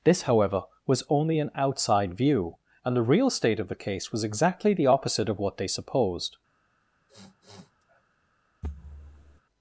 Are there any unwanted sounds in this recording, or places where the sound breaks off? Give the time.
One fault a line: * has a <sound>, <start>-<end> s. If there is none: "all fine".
* has a sniff, 7.1-8.0 s
* has a thud, 8.6-9.4 s